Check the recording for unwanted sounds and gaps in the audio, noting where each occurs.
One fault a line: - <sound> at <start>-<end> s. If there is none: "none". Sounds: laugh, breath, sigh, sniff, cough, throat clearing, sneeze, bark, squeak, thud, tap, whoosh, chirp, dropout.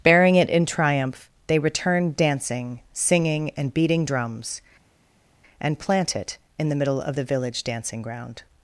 none